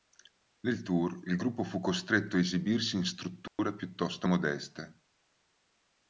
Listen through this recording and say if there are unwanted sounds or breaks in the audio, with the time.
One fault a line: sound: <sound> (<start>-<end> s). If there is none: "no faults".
sound: dropout (3.5-3.6 s)